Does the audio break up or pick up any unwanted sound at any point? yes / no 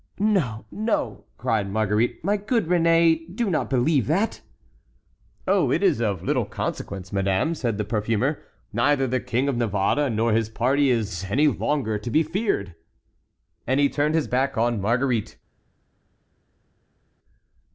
no